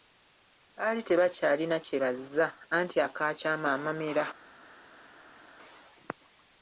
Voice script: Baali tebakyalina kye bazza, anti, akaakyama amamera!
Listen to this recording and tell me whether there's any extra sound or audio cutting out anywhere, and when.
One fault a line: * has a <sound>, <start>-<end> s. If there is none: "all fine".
all fine